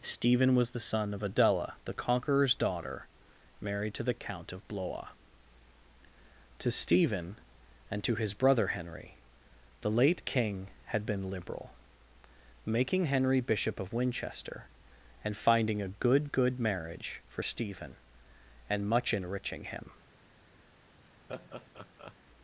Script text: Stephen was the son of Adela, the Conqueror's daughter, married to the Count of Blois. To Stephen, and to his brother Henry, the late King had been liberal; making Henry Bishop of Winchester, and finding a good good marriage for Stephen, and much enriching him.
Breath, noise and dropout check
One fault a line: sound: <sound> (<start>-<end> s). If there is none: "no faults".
sound: laugh (21.3-22.2 s)